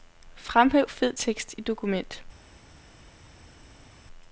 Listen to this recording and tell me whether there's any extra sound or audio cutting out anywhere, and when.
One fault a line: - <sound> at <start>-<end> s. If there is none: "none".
none